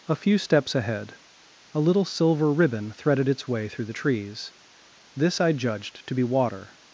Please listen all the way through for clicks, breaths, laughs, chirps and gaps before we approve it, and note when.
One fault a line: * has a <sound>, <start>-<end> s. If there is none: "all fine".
all fine